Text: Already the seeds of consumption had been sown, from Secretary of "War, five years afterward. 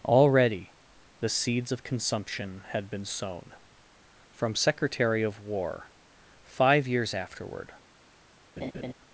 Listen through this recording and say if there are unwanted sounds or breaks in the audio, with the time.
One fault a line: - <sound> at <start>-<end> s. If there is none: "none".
- laugh at 8.6-8.9 s